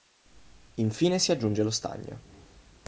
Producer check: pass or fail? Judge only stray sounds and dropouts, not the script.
pass